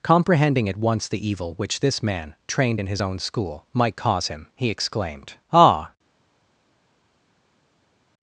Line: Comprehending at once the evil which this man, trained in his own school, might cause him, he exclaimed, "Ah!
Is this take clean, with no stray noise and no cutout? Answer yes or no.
yes